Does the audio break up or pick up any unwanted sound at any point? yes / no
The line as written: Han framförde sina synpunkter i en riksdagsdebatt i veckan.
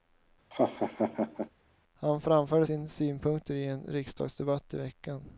yes